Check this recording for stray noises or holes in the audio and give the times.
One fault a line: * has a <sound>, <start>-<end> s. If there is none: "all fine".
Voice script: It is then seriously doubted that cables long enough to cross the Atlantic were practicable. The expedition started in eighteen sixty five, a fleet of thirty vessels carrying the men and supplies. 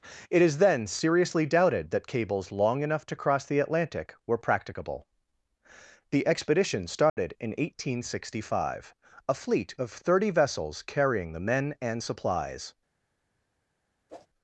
* has a dropout, 7.1-7.2 s
* has a whoosh, 14.1-14.3 s